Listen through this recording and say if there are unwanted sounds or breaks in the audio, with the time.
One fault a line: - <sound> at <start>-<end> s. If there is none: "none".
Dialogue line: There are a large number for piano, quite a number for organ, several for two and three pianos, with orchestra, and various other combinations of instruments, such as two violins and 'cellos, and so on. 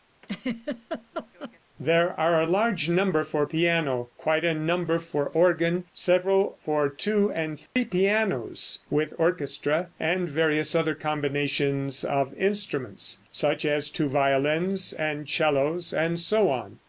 - laugh at 0.2-1.6 s
- dropout at 7.7-7.8 s